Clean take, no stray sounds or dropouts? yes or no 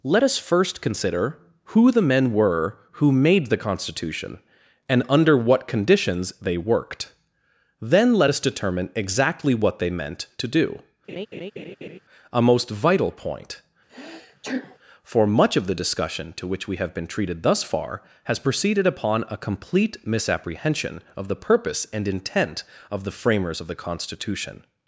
no